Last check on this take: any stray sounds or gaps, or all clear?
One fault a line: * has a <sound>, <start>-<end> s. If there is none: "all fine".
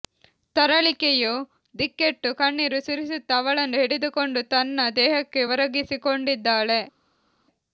all fine